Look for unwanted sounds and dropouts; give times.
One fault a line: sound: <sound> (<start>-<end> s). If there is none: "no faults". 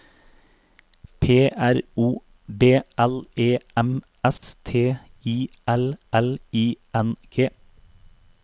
sound: dropout (4.4-4.4 s)